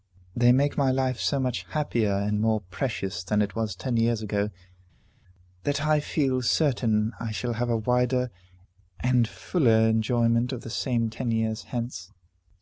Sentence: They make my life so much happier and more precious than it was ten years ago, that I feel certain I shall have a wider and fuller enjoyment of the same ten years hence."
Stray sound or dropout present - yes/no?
no